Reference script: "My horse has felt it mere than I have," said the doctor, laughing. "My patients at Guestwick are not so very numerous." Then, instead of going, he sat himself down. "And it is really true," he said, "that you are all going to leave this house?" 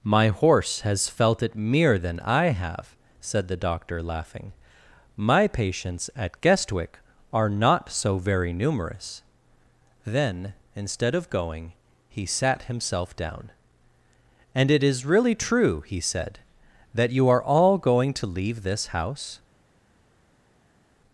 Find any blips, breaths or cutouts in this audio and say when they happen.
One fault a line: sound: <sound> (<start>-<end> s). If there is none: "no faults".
no faults